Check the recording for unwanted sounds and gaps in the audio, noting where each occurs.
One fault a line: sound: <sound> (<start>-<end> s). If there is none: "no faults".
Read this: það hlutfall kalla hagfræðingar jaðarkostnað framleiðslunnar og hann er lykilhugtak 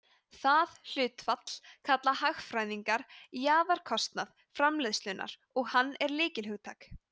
no faults